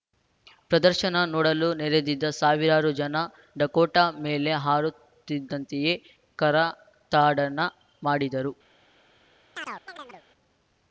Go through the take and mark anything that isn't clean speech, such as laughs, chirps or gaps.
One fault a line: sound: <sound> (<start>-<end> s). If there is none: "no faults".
sound: chirp (9.5-10.2 s)